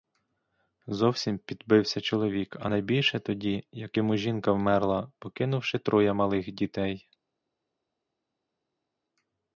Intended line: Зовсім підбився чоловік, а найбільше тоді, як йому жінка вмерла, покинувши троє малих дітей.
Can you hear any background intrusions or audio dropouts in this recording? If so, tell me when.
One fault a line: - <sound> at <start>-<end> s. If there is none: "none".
none